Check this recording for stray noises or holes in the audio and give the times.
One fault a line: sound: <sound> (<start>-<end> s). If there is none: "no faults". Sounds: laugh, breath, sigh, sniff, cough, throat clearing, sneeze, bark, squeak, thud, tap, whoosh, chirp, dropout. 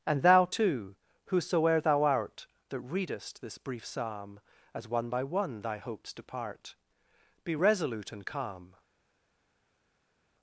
no faults